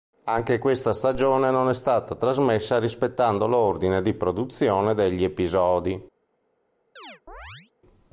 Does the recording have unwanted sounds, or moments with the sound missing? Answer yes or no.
yes